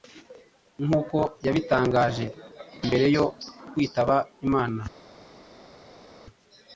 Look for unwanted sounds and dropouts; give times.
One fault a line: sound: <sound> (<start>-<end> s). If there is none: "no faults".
no faults